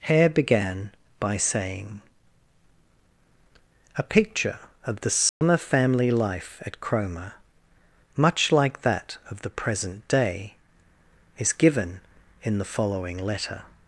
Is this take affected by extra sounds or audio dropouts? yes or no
yes